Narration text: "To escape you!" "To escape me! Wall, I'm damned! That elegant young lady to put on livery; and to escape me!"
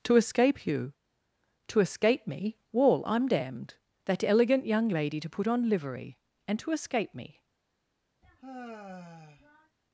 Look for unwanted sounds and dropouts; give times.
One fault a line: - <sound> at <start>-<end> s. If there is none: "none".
- sigh at 8.2-9.8 s